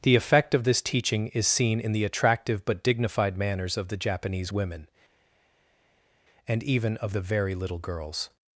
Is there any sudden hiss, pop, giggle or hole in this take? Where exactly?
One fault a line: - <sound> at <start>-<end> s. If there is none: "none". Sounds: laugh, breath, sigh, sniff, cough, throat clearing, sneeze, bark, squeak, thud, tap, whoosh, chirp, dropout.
none